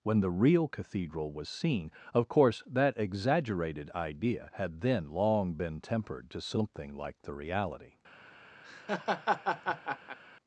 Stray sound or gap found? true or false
true